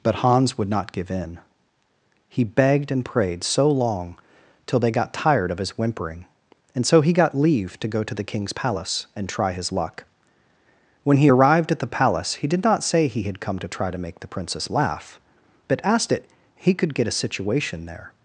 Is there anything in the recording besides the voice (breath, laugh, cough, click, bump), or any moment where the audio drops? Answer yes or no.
no